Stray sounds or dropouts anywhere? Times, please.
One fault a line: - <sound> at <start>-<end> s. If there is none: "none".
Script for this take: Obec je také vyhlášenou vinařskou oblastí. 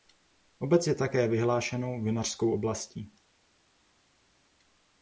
none